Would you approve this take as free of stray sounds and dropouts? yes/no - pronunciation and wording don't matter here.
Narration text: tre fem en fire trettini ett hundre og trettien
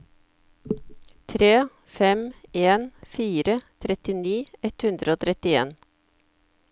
yes